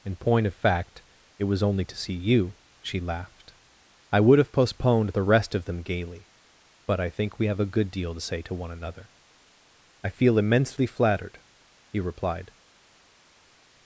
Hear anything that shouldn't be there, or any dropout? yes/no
no